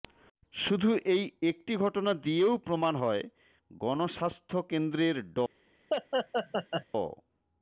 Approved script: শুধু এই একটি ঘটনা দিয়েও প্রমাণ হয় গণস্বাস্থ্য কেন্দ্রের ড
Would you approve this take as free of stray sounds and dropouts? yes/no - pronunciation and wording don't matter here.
no